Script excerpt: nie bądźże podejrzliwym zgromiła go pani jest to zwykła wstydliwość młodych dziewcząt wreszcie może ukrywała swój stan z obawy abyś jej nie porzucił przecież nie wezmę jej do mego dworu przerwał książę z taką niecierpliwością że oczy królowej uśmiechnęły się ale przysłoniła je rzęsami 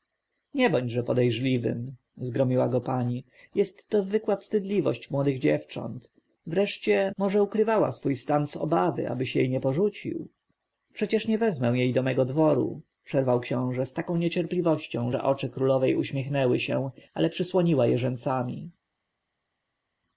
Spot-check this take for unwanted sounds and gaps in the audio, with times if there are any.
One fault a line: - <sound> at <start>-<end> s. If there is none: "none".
none